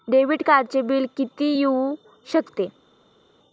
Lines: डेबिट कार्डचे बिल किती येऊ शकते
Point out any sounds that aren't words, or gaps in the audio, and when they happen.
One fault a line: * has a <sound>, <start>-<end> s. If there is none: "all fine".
all fine